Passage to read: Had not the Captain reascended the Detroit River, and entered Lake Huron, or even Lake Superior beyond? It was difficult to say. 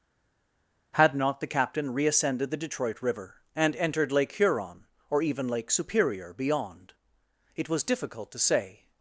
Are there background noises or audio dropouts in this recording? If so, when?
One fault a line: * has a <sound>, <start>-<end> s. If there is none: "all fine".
all fine